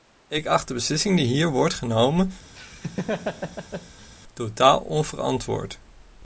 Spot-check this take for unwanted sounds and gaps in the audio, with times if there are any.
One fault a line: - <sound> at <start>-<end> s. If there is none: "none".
- laugh at 2.6-4.1 s